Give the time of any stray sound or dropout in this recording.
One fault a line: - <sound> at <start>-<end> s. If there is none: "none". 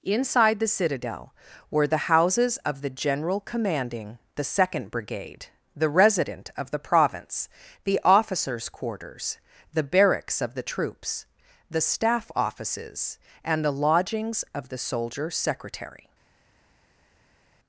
none